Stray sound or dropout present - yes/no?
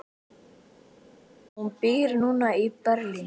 no